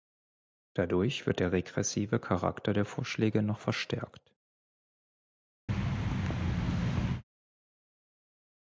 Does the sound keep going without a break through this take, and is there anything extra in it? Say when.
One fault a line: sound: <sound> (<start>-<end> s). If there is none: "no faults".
sound: thud (5.7-7.2 s)